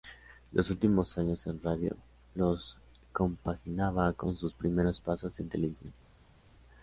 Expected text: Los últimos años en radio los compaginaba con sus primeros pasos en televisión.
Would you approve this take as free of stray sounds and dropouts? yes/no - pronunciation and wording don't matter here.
yes